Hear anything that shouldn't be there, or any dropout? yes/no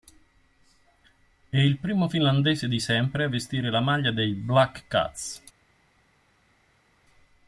no